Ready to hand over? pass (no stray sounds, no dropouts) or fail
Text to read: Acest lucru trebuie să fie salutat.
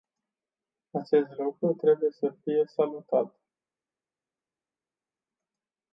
pass